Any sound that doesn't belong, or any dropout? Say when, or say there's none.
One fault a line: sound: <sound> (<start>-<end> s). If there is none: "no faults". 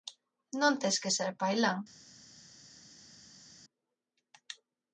no faults